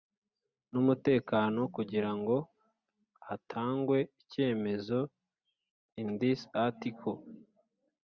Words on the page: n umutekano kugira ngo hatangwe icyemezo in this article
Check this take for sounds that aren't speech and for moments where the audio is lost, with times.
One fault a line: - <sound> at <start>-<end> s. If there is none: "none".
none